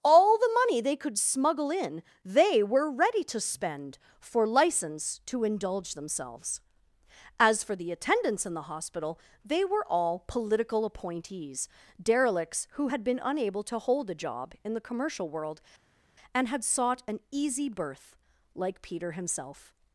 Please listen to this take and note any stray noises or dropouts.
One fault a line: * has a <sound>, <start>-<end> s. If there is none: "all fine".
all fine